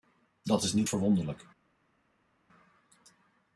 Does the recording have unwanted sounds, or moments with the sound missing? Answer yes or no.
no